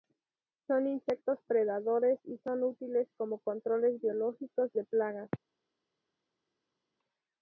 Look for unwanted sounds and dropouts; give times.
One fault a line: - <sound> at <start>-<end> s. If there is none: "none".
none